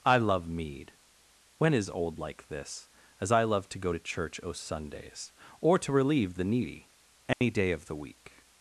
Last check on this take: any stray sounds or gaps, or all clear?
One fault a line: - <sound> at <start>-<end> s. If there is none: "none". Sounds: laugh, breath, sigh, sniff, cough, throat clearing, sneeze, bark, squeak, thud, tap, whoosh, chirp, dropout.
- dropout at 7.3-7.4 s